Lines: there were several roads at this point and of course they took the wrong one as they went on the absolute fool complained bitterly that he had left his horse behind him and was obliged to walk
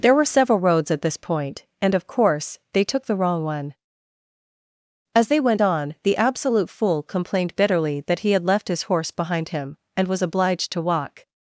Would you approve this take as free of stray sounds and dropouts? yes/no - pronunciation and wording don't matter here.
yes